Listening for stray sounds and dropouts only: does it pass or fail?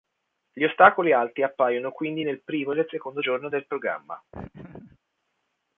fail